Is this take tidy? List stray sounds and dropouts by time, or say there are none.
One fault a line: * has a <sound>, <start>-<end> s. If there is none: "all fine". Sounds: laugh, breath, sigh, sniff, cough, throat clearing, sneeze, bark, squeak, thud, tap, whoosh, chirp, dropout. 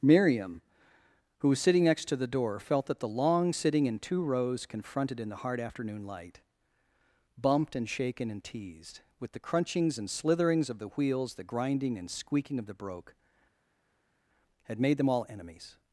all fine